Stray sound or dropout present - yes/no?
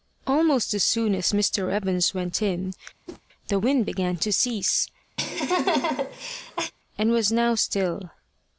yes